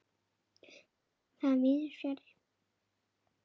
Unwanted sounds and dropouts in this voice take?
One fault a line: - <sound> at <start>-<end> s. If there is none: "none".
none